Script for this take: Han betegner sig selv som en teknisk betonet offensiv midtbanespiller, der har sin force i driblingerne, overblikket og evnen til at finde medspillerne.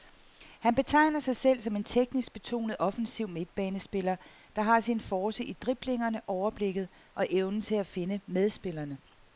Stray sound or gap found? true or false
false